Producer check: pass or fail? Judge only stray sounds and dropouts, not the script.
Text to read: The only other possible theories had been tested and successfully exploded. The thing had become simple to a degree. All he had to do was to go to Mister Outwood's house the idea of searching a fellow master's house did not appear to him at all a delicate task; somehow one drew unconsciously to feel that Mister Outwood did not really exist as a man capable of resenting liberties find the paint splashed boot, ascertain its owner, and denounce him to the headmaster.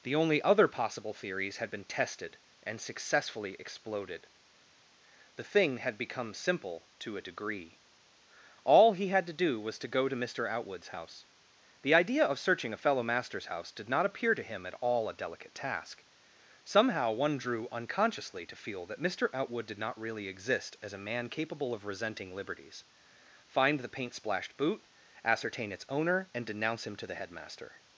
pass